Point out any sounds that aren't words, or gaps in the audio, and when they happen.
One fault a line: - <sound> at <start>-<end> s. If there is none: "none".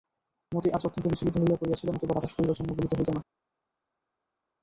none